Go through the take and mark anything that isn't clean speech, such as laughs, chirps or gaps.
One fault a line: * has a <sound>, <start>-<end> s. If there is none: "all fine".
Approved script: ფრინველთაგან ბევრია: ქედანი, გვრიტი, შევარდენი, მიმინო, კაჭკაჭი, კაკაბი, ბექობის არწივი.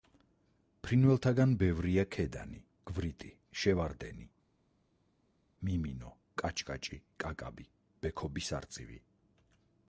all fine